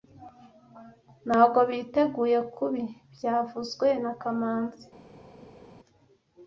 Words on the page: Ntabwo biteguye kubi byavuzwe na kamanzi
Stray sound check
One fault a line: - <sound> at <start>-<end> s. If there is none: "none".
none